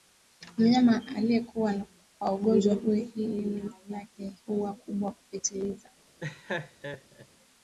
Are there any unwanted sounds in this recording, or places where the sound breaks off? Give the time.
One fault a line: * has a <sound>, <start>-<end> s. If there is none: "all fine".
* has a laugh, 6.2-7.3 s